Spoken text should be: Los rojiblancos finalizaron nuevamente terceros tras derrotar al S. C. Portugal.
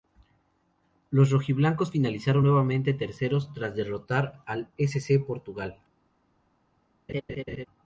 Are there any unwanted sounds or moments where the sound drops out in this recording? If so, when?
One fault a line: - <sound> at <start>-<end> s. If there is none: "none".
- laugh at 7.1-7.7 s